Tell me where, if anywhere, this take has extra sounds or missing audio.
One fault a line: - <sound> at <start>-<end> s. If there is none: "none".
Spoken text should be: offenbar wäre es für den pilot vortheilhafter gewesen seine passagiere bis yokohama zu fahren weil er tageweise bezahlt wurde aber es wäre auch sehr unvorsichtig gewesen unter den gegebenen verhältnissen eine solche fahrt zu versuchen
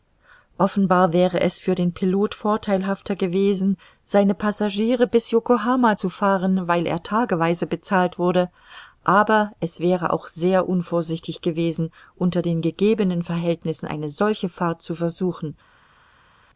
none